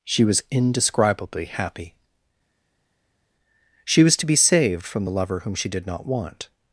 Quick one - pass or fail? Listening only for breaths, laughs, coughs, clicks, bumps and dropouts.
pass